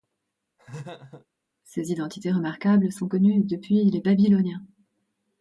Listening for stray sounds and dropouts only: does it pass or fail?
fail